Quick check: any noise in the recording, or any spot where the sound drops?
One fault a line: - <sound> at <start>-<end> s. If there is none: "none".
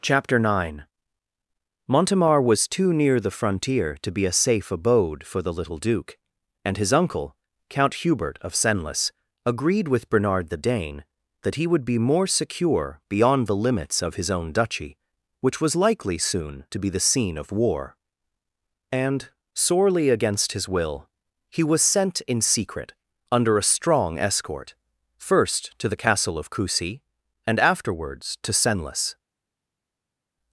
none